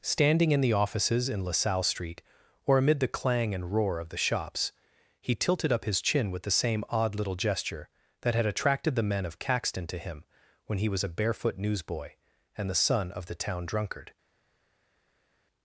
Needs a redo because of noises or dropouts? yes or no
no